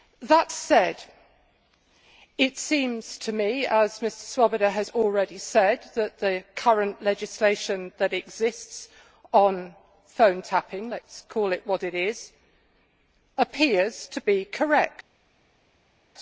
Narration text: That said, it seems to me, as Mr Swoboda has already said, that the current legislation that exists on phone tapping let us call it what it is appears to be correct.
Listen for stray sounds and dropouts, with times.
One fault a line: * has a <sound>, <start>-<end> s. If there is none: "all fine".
all fine